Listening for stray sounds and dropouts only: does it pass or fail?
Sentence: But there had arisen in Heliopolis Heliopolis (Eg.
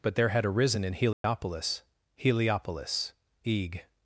fail